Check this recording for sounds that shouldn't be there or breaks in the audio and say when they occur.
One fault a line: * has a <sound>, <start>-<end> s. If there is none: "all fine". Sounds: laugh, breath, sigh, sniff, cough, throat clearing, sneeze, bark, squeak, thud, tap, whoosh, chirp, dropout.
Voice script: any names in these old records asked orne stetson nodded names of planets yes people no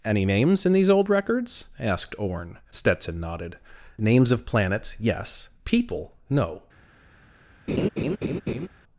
* has a laugh, 7.7-8.7 s